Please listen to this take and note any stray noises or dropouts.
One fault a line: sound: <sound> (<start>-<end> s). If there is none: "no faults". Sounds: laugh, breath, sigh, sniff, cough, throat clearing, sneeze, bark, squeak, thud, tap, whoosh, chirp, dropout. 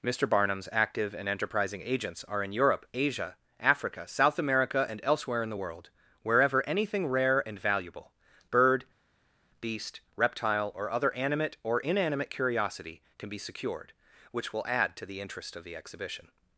no faults